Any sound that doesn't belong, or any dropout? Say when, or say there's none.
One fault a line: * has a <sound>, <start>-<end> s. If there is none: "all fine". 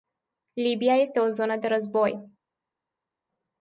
all fine